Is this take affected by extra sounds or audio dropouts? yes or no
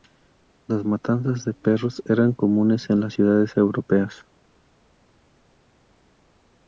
no